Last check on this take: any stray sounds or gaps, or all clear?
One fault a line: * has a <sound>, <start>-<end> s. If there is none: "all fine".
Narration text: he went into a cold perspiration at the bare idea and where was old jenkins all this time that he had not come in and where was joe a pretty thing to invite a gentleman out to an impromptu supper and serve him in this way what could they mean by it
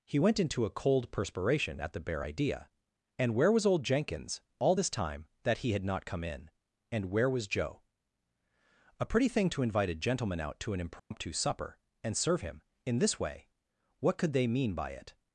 * has a dropout, 11.0-11.1 s